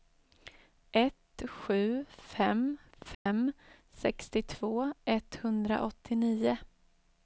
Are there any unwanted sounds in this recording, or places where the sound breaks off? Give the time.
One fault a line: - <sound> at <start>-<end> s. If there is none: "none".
- dropout at 3.1-3.3 s